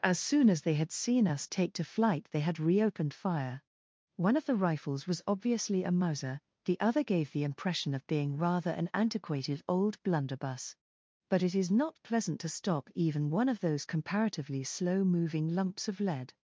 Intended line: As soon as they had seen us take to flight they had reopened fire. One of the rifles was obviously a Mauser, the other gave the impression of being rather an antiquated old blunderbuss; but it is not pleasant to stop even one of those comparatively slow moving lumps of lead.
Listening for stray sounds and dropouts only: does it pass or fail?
pass